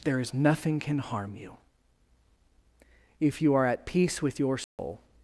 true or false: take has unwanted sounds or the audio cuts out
true